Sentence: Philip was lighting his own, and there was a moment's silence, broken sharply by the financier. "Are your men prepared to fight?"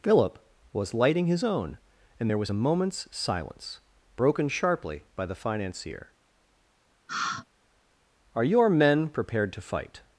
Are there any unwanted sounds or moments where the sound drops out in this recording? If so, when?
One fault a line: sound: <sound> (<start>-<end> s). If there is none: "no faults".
sound: sigh (7.1-7.5 s)